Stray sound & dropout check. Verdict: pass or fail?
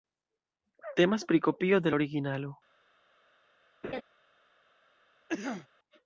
fail